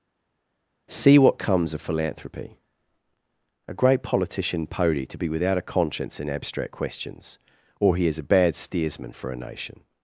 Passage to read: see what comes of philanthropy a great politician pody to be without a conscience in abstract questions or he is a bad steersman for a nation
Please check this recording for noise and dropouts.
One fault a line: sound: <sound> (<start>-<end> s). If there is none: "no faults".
no faults